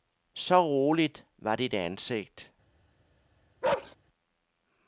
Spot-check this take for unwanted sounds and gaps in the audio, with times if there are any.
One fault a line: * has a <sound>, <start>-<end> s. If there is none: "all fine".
* has a bark, 3.6-4.0 s